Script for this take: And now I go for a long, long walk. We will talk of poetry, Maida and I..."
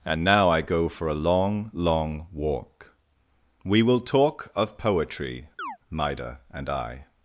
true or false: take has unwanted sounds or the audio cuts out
true